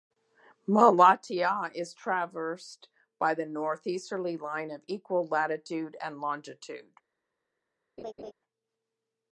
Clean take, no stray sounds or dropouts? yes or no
no